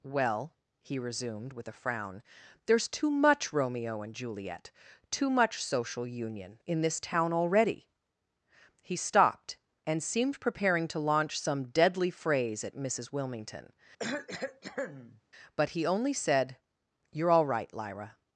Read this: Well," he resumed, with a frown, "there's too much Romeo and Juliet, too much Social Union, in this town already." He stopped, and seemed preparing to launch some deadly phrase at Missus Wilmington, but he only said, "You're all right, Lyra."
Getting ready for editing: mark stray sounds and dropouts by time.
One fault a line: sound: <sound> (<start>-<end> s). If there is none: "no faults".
sound: cough (14.0-15.2 s)